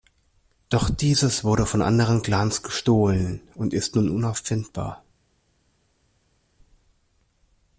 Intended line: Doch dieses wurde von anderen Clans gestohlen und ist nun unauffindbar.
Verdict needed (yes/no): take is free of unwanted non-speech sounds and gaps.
yes